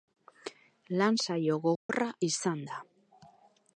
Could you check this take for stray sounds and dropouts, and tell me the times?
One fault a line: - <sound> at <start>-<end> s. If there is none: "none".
- dropout at 1.8-1.9 s